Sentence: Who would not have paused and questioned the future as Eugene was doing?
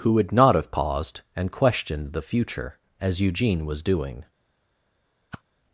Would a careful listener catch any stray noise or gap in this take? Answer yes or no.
yes